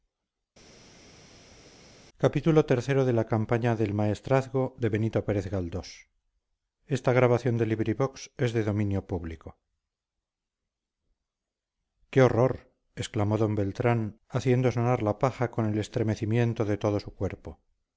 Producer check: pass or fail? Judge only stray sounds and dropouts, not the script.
pass